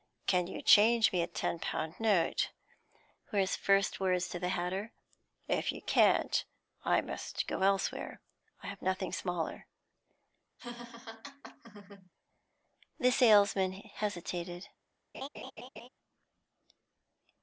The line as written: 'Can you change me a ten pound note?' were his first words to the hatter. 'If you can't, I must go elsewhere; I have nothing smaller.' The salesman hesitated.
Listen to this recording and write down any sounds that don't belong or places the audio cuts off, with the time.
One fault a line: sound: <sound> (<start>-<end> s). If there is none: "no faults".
sound: laugh (10.6-12.1 s)
sound: laugh (15.1-15.9 s)